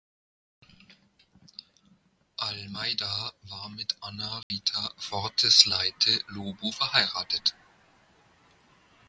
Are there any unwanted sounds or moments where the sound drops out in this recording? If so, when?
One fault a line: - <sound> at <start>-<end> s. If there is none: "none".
- dropout at 4.4-4.5 s